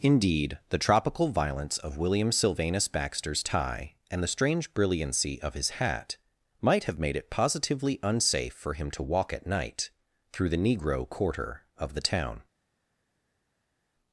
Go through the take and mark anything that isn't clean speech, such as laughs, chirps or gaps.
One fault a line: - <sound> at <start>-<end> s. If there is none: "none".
none